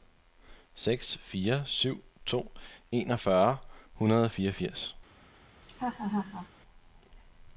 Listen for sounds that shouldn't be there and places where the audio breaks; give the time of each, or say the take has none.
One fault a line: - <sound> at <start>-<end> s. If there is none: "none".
- laugh at 5.6-6.5 s